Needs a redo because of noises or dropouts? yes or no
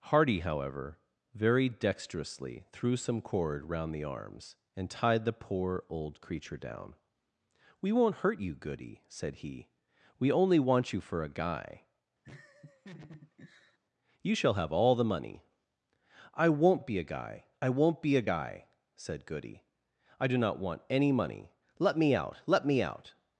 yes